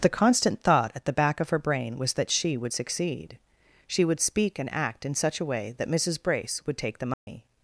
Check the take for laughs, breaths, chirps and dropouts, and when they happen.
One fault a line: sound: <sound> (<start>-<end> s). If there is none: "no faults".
sound: dropout (7.1-7.3 s)